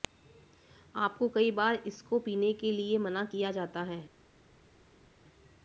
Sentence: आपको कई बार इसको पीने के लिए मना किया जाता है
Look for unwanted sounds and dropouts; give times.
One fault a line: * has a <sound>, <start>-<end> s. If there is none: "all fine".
all fine